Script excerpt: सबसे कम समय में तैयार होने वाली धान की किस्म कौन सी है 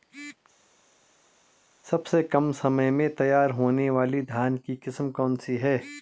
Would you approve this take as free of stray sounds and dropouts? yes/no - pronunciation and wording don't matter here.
yes